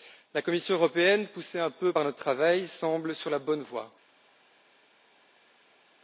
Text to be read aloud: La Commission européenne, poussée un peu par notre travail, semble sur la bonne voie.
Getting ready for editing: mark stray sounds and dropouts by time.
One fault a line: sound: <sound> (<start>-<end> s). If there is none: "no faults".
no faults